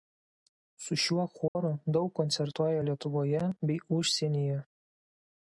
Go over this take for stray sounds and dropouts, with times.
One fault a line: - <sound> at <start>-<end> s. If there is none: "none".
- dropout at 1.5-1.6 s